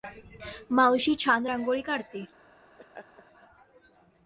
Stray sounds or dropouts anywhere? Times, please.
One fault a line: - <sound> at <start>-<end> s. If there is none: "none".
- laugh at 2.8-3.2 s